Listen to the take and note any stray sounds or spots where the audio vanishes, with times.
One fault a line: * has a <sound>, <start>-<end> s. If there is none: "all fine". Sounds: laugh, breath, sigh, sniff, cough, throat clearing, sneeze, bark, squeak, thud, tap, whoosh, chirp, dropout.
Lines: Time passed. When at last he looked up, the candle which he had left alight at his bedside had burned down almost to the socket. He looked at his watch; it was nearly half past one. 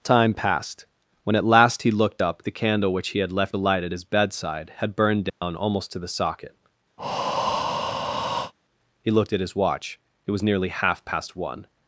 * has a dropout, 5.3-5.4 s
* has a breath, 7.0-8.5 s